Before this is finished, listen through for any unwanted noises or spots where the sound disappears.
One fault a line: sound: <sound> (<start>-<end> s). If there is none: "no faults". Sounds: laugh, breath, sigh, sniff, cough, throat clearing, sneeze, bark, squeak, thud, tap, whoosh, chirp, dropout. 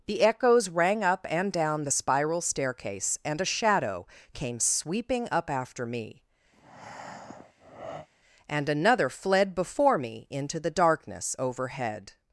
sound: breath (6.5-8.1 s)